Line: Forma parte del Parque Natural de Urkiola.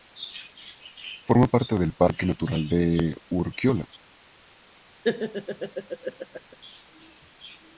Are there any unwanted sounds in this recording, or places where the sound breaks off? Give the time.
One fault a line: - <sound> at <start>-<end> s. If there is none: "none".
- laugh at 5.0-6.6 s